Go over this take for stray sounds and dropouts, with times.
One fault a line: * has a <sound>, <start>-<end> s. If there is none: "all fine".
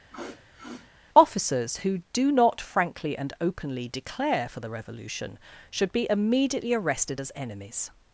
* has a sniff, 0.1-0.9 s